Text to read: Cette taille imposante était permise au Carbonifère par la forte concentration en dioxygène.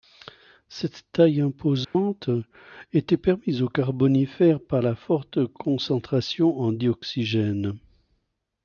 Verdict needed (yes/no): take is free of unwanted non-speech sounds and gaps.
no